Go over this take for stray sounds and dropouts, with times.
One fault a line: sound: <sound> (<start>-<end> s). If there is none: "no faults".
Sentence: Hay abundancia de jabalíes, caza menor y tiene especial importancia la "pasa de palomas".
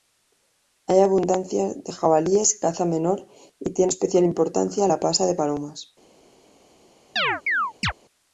sound: chirp (7.2-7.9 s)